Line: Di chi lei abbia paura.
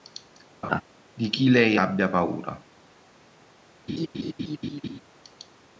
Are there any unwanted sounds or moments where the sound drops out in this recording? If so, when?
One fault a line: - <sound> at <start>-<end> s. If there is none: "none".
- laugh at 0.6-0.8 s
- laugh at 3.9-5.0 s